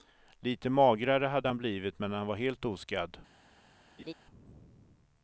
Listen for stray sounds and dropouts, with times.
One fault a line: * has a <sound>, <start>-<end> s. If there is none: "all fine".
* has a laugh, 4.0-4.1 s